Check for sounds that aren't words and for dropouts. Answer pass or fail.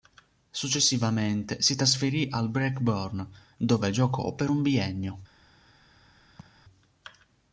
fail